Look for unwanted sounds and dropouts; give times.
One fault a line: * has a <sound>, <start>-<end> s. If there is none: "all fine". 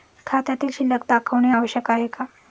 all fine